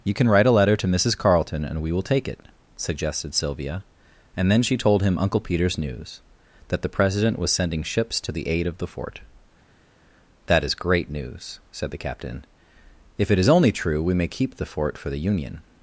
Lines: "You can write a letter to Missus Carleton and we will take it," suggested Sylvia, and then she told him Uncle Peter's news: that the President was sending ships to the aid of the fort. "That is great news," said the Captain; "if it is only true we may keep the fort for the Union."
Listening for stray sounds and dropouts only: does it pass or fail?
pass